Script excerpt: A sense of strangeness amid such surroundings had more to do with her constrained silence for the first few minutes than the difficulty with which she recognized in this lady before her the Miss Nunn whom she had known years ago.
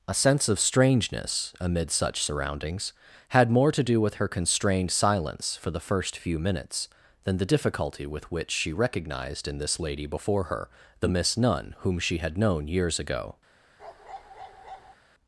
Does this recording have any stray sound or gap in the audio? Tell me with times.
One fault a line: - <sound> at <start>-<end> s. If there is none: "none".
- bark at 13.8-15.0 s